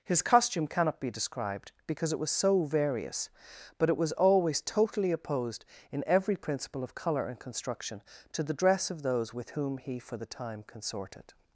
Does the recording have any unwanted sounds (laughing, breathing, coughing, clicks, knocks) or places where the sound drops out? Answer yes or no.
no